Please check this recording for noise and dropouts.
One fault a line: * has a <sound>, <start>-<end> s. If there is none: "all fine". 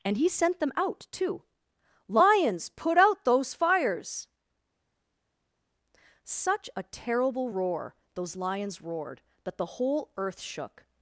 all fine